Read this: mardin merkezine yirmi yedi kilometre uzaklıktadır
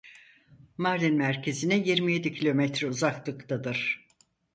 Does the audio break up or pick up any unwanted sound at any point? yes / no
no